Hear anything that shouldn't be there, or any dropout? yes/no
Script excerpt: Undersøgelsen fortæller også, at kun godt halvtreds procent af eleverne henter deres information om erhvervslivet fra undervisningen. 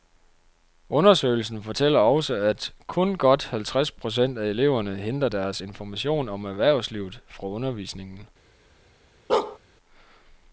yes